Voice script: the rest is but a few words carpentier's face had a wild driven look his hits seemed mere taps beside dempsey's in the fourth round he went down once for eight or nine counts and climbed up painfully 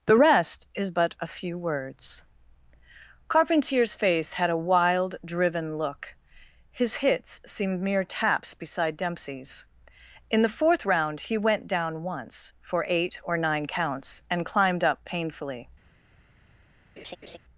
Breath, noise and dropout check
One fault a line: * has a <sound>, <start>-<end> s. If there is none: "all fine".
* has a laugh, 17.0-17.4 s